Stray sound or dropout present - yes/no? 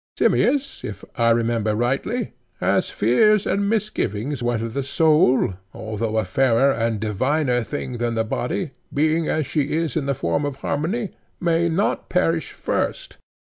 no